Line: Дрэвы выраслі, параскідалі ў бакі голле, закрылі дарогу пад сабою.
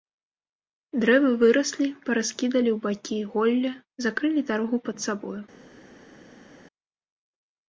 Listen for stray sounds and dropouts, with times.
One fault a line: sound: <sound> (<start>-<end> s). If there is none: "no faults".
no faults